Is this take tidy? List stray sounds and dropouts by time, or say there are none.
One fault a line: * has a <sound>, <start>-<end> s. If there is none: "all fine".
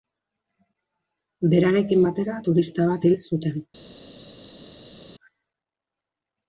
all fine